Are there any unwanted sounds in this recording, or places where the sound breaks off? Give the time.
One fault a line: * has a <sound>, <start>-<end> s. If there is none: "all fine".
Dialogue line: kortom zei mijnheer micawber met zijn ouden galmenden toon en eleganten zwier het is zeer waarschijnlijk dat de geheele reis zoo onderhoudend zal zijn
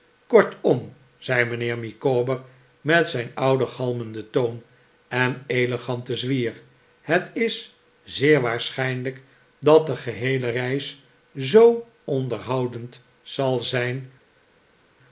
all fine